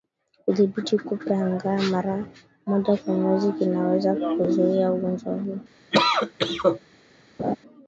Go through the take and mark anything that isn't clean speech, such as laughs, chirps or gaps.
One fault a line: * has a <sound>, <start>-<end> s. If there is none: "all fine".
* has a cough, 5.9-6.8 s
* has a laugh, 7.4-7.6 s